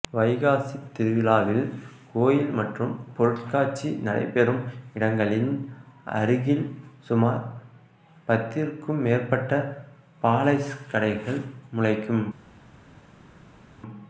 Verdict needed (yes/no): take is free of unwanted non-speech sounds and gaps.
yes